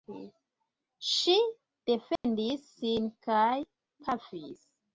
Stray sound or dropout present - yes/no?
yes